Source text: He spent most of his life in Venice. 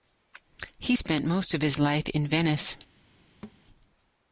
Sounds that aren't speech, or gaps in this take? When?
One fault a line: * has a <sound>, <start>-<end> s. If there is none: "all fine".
* has a thud, 3.4-3.6 s